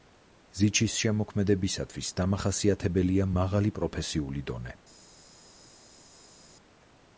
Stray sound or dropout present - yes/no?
no